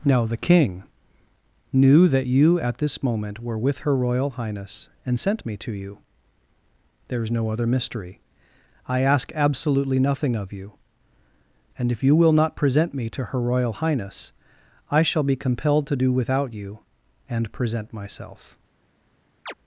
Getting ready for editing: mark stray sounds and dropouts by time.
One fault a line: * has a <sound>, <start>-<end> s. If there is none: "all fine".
* has a chirp, 19.5-19.5 s